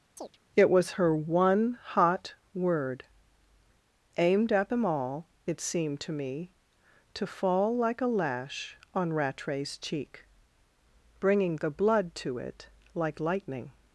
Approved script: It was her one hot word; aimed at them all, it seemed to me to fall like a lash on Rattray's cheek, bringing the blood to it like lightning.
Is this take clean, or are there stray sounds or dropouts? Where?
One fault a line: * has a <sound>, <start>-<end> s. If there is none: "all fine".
* has a chirp, 0.2-0.4 s